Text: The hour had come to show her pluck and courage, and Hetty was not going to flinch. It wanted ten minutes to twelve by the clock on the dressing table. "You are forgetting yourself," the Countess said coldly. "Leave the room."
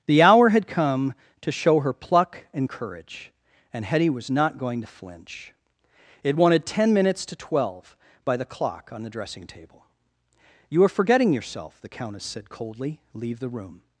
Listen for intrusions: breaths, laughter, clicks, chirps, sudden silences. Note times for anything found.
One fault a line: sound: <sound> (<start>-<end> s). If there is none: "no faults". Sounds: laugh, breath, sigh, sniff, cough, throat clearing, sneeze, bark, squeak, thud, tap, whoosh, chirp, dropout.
no faults